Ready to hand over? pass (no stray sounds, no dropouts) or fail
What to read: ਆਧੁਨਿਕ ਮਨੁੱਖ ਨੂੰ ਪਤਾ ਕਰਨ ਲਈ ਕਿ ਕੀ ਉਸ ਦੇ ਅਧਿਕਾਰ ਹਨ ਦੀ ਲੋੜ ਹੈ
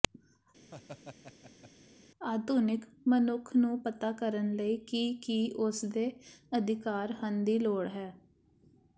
fail